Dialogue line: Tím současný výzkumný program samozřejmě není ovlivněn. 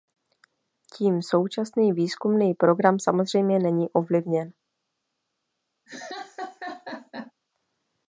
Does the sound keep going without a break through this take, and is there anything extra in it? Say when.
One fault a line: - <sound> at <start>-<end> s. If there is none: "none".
- laugh at 5.9-7.3 s